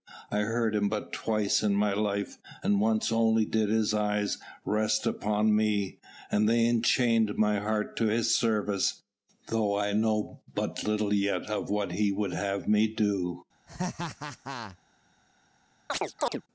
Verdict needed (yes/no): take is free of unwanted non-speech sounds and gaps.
no